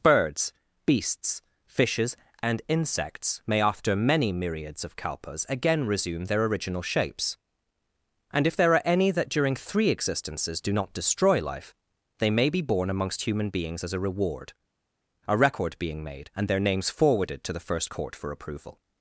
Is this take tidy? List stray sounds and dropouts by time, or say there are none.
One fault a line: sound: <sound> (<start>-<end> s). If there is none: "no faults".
no faults